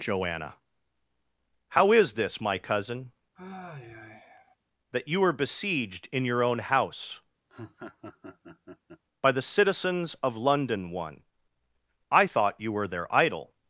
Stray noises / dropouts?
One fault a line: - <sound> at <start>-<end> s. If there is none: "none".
- sigh at 3.4-4.6 s
- laugh at 7.5-9.0 s